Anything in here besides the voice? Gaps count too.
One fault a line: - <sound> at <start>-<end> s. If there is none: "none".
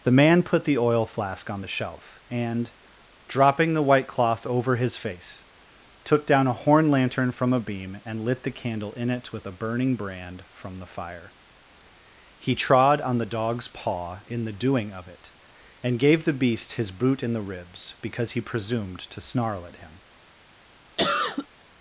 - cough at 21.0-21.5 s